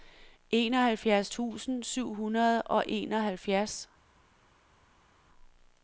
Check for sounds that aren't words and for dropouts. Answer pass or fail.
pass